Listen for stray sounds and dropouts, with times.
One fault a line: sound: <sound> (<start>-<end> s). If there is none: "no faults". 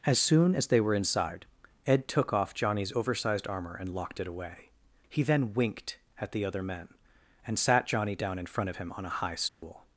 sound: dropout (9.5-9.6 s)